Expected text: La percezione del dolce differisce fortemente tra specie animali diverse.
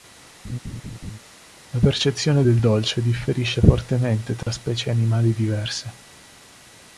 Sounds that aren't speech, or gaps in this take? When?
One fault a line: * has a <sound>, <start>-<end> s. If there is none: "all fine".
* has a laugh, 0.4-1.2 s
* has a dropout, 4.4-4.5 s